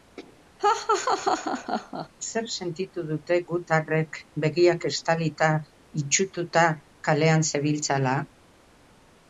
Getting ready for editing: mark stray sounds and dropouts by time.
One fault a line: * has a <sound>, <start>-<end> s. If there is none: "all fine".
* has a laugh, 0.6-2.1 s